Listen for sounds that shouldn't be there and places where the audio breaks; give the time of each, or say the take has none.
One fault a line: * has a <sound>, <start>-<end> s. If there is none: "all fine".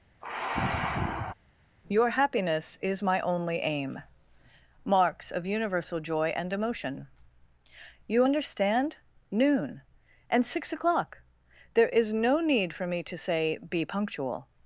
* has a sigh, 0.2-1.3 s